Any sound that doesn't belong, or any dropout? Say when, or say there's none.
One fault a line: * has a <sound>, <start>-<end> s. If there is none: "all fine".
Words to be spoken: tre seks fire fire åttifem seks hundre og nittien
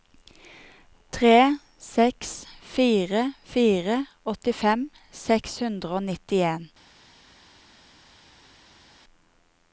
all fine